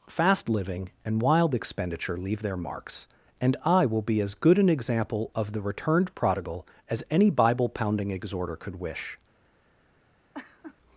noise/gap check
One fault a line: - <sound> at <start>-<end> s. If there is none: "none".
- laugh at 10.3-10.8 s